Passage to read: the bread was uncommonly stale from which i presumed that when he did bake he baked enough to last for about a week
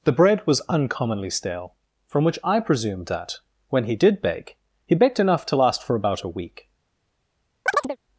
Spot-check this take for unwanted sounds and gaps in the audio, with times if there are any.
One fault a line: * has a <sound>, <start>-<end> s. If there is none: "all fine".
* has a chirp, 7.7-8.0 s